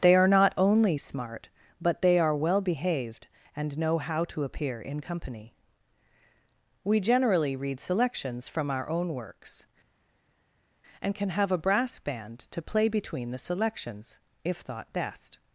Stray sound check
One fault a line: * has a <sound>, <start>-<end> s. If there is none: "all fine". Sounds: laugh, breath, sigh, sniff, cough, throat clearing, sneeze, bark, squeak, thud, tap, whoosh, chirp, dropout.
all fine